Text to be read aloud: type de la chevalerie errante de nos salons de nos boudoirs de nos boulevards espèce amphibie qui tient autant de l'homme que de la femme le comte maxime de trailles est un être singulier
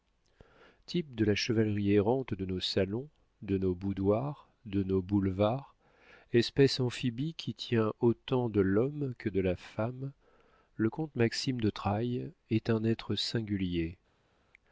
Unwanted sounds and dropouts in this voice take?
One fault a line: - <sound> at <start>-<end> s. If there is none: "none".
none